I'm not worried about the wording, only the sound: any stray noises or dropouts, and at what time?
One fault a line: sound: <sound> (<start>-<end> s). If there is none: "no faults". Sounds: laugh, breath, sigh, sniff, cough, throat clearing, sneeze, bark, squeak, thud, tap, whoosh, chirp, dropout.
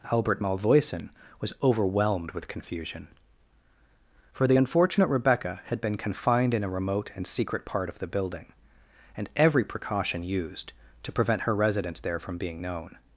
no faults